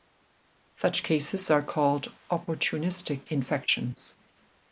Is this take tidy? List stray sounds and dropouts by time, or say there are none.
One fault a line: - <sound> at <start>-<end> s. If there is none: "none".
none